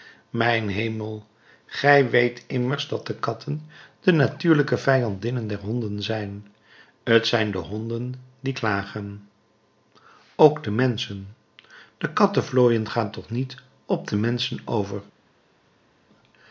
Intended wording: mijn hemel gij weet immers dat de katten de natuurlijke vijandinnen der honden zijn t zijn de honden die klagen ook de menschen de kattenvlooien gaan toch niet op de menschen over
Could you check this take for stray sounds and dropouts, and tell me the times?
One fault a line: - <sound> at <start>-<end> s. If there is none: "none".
none